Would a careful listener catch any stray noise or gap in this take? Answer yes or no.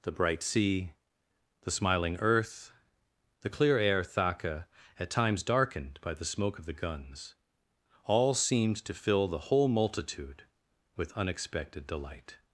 no